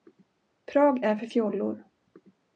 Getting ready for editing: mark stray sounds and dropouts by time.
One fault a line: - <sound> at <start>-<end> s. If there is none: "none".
none